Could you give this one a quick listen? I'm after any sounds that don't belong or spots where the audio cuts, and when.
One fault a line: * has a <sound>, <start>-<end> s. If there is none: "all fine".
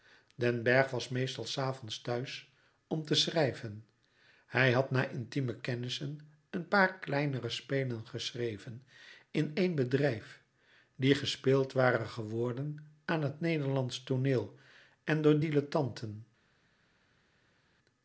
all fine